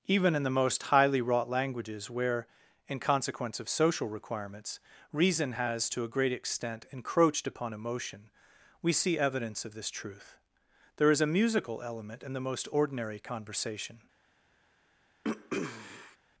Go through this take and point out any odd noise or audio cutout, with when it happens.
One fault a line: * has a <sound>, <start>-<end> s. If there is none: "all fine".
* has a throat clearing, 15.2-16.2 s